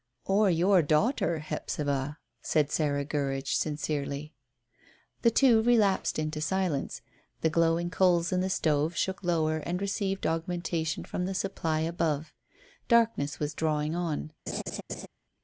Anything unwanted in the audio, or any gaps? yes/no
yes